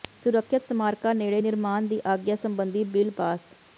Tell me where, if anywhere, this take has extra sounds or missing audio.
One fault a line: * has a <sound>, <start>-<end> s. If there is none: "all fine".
all fine